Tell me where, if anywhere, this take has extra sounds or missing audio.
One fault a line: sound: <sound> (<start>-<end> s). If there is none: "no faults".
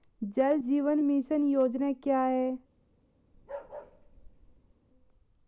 sound: bark (3.3-4.7 s)